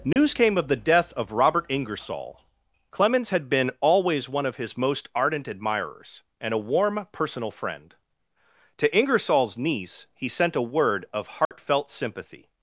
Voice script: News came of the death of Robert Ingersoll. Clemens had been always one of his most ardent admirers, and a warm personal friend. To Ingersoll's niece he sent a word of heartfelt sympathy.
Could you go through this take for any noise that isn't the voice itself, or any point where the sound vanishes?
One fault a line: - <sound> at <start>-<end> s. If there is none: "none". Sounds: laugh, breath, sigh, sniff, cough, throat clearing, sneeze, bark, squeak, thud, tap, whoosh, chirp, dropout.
- dropout at 0.1-0.2 s
- dropout at 11.5-11.5 s